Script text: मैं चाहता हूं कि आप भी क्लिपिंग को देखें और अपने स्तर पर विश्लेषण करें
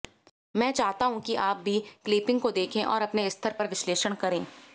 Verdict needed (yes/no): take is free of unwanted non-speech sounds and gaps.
yes